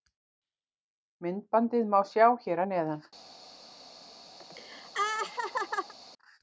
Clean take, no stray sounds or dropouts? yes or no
no